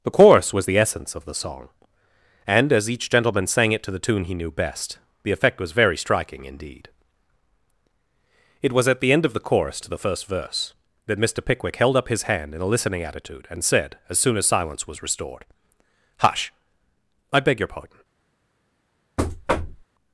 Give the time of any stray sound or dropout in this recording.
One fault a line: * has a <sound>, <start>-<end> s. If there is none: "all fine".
* has a thud, 19.2-19.9 s